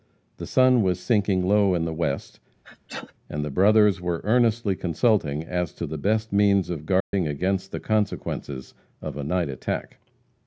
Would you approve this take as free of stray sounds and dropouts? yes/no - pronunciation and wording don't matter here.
no